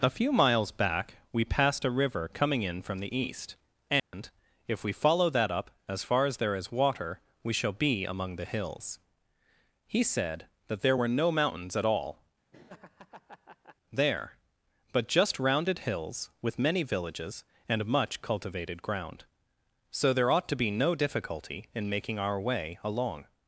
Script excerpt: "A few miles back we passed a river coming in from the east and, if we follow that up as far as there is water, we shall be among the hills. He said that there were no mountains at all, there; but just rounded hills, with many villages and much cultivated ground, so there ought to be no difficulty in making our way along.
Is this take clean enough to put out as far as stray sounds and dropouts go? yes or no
no